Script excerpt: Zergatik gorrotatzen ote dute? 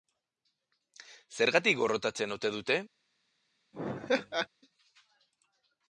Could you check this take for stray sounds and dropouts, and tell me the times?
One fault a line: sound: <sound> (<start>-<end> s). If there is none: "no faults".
sound: laugh (3.7-4.5 s)